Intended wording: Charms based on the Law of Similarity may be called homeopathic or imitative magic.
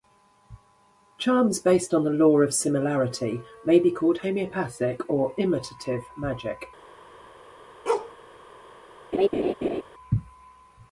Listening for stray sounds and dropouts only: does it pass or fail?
fail